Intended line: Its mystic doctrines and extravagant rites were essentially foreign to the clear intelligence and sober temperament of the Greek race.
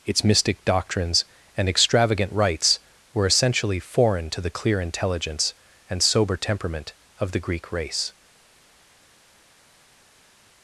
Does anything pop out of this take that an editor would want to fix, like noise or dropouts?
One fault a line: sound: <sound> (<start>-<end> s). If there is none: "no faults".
no faults